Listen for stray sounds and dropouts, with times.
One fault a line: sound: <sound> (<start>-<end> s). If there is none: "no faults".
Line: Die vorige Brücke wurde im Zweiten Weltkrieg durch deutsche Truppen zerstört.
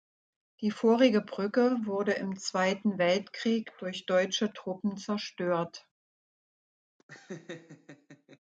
sound: laugh (7.0-8.4 s)